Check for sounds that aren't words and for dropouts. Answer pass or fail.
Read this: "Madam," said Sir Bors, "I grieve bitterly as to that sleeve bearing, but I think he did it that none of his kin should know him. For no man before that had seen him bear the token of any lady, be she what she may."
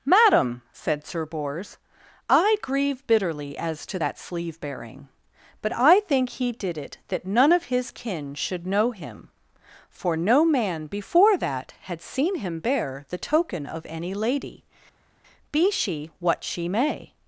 pass